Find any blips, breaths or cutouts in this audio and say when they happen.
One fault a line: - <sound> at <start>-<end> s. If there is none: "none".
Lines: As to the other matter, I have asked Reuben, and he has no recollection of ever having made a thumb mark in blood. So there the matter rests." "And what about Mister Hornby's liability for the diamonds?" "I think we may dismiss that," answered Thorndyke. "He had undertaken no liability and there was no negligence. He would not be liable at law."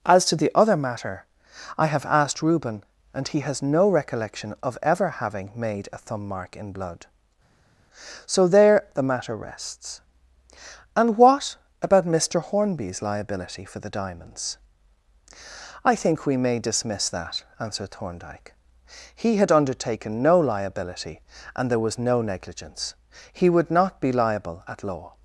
none